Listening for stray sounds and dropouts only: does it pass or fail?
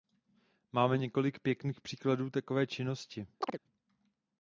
fail